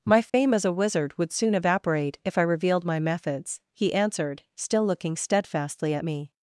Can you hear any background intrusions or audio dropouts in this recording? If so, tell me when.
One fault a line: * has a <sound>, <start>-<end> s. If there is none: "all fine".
* has a dropout, 0.3-0.3 s